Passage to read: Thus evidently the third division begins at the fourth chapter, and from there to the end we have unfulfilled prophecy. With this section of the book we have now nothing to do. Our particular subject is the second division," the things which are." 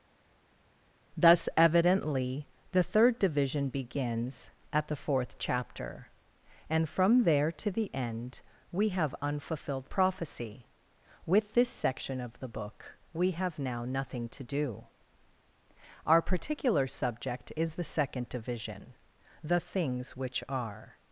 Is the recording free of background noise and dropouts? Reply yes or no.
yes